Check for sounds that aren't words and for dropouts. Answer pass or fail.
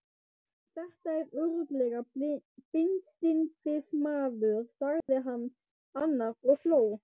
fail